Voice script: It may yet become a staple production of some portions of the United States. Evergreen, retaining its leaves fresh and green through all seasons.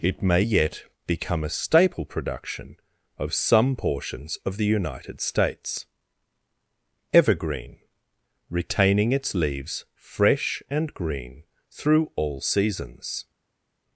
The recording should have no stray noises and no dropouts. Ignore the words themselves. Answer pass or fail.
pass